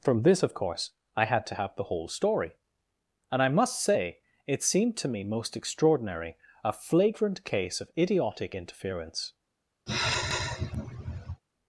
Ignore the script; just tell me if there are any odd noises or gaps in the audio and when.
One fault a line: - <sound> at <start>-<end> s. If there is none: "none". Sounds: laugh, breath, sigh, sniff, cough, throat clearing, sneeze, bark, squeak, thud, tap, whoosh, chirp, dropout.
- sigh at 9.9-11.4 s